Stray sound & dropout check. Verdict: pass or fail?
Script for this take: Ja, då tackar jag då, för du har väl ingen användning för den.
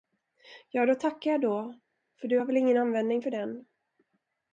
pass